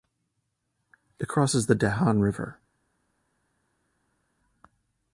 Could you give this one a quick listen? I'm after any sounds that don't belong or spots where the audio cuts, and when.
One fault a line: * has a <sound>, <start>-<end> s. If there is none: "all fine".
all fine